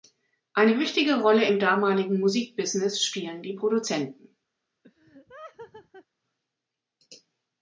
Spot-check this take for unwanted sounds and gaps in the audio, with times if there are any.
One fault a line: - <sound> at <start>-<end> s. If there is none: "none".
- laugh at 4.8-6.1 s